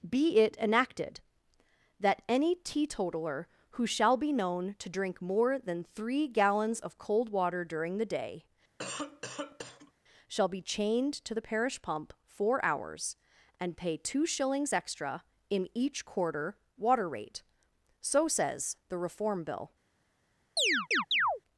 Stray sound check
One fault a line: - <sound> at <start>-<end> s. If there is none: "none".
- cough at 8.8-9.9 s
- chirp at 20.6-21.4 s